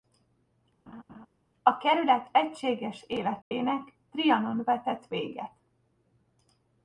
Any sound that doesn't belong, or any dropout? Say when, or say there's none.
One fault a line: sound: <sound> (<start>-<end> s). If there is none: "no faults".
sound: laugh (0.9-1.3 s)
sound: dropout (3.4-3.5 s)